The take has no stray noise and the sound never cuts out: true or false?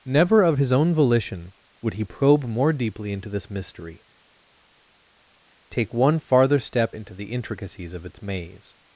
true